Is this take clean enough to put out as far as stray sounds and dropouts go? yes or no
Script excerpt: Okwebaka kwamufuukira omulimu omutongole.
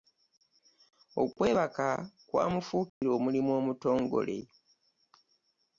no